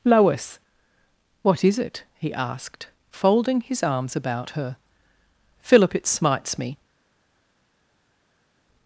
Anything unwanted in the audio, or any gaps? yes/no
no